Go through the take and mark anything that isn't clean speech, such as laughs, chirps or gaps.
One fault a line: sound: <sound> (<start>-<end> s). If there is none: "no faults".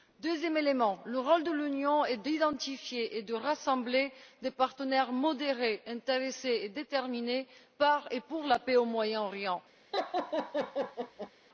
sound: laugh (9.9-11.3 s)